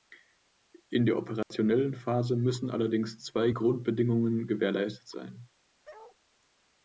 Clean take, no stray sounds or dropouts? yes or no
no